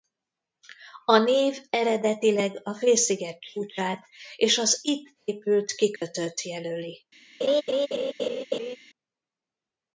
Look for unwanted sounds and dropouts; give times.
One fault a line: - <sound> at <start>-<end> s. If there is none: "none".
- dropout at 6.0-6.0 s
- laugh at 7.4-8.8 s